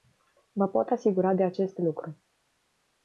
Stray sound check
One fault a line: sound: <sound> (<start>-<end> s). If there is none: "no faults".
no faults